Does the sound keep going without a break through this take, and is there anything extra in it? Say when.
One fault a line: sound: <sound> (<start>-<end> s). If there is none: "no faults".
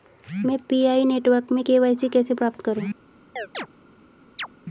sound: chirp (3.4-3.7 s)
sound: chirp (4.4-4.5 s)